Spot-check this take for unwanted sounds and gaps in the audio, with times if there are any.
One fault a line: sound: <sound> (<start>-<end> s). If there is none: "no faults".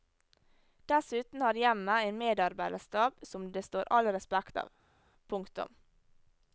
no faults